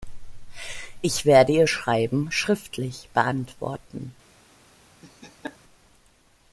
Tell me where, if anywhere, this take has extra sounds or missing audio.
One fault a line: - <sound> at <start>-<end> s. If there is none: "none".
- laugh at 5.0-5.6 s